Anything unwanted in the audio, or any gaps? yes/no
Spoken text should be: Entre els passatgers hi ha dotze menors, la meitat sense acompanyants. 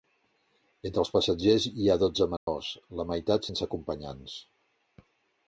yes